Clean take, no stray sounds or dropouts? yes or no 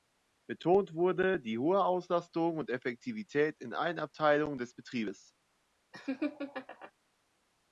no